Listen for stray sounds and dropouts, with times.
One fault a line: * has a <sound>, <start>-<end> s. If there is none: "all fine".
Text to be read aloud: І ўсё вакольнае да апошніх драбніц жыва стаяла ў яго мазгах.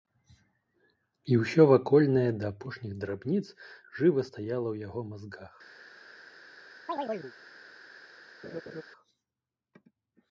* has a chirp, 6.9-7.3 s
* has a laugh, 8.4-8.8 s